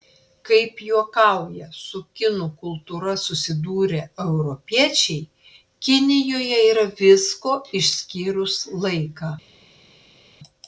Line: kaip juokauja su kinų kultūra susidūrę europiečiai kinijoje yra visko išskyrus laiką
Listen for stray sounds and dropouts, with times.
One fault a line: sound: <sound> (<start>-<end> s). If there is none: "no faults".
no faults